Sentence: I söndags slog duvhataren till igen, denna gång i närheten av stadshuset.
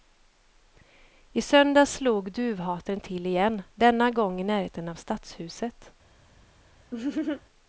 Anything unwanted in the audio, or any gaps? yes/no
yes